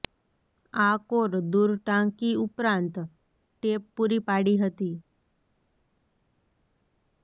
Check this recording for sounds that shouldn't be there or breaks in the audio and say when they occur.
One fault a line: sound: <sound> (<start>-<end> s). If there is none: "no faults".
no faults